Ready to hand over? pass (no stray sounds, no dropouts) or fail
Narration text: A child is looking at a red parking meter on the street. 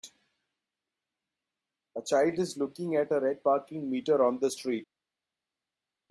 pass